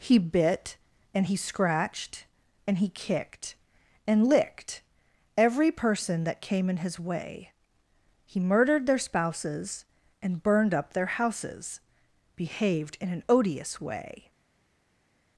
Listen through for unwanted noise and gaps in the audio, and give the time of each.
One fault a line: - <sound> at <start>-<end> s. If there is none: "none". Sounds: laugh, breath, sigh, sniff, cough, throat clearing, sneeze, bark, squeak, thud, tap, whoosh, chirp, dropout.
none